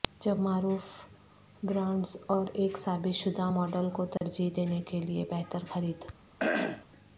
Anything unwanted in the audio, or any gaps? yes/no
yes